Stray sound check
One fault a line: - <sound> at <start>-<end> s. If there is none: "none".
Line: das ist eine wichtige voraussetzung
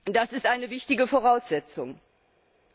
none